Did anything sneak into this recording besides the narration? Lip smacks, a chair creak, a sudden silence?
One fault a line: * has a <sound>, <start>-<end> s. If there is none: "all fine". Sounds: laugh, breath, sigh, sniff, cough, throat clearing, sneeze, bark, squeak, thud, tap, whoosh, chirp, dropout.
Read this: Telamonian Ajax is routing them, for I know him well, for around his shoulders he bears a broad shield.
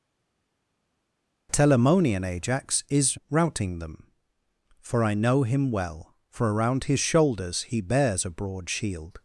all fine